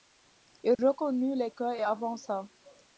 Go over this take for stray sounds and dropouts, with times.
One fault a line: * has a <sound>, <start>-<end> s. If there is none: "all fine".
* has a dropout, 0.7-0.8 s